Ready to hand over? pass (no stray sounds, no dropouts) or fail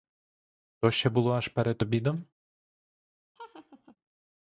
fail